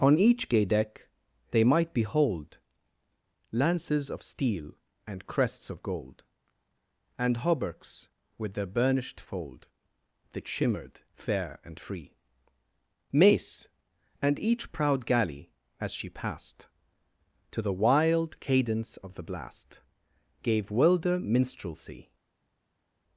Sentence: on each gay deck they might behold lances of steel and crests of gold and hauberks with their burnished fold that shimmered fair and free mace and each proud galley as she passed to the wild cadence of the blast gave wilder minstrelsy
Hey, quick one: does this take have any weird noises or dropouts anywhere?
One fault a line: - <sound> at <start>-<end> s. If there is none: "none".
none